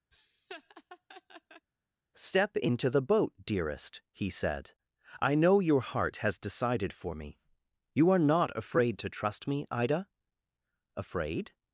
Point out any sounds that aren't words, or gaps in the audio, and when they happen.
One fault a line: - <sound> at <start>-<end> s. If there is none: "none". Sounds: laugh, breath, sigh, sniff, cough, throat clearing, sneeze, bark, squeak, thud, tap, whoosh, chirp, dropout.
- laugh at 0.1-1.7 s